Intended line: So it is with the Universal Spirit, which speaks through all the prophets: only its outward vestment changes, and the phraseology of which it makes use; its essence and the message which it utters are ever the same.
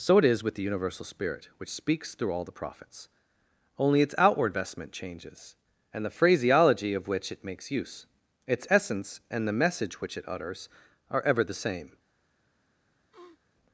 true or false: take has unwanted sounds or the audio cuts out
true